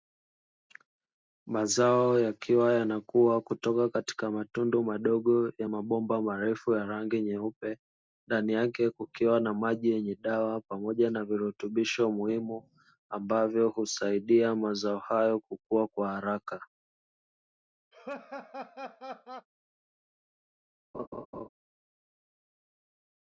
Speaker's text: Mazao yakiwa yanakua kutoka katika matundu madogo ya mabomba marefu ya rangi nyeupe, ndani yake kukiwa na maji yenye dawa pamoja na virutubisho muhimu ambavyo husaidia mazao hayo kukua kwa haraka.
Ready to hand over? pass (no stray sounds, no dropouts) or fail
fail